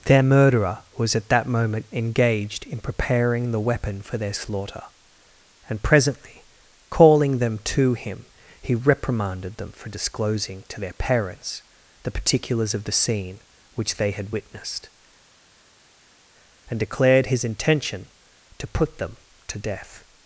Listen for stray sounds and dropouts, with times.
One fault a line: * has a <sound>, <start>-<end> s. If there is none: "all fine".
all fine